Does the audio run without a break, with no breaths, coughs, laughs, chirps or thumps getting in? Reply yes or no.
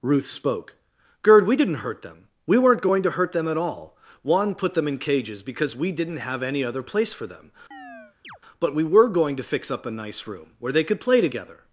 no